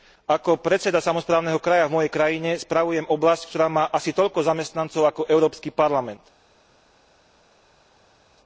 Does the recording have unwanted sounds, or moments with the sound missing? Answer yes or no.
no